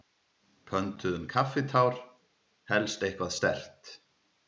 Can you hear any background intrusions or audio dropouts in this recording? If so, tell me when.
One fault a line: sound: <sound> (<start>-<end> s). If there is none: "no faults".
no faults